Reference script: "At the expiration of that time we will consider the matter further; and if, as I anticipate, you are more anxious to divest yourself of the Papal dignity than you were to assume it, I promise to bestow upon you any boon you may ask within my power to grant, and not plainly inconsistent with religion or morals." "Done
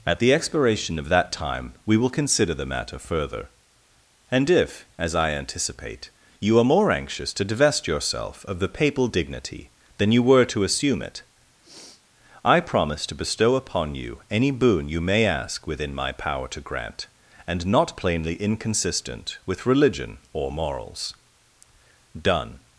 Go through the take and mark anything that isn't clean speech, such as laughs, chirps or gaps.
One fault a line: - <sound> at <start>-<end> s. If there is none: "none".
- sniff at 11.6-12.0 s